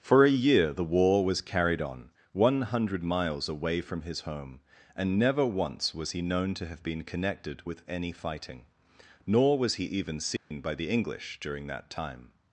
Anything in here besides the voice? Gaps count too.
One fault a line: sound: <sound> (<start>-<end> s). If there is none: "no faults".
sound: dropout (10.4-10.5 s)